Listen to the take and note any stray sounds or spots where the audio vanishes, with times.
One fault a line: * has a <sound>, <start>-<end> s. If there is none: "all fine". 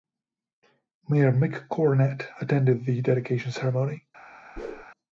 * has a whoosh, 4.6-4.8 s